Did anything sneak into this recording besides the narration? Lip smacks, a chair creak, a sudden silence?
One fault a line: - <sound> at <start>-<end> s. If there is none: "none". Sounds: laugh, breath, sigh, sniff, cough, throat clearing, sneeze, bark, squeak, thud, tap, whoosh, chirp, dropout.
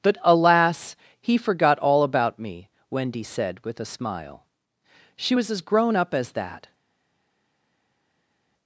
none